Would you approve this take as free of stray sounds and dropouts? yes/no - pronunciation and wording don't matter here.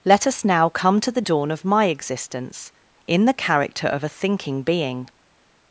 yes